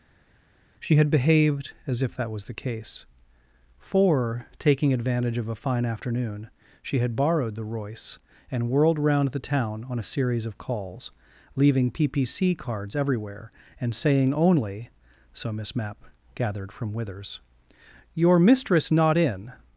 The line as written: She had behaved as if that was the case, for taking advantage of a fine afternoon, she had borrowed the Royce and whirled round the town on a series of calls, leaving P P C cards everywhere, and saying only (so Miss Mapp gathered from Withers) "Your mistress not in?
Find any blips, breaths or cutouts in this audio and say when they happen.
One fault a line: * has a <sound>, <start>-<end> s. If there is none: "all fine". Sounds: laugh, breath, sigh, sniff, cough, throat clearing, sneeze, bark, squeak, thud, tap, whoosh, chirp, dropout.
all fine